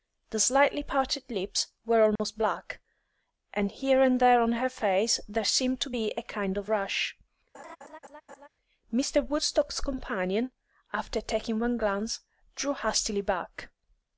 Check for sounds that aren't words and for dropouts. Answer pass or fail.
fail